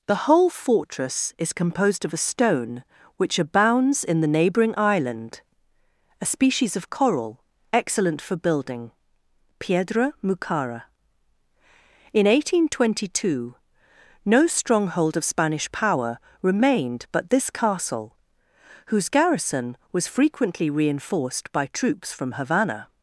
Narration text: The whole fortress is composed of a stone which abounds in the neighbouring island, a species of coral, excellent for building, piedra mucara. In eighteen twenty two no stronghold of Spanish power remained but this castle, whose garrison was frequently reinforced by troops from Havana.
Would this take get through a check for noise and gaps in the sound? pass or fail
pass